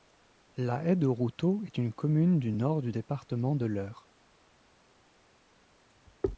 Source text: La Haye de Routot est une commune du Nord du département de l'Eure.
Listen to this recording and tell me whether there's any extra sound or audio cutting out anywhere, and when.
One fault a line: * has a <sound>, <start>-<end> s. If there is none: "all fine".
all fine